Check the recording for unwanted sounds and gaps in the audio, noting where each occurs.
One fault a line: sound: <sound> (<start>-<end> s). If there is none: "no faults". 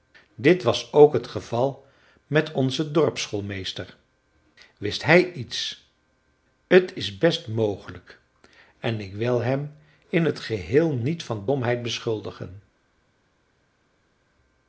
no faults